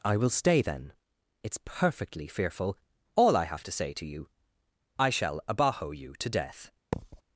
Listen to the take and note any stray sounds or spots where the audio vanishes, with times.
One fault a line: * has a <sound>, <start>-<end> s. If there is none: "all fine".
* has a thud, 6.9-7.2 s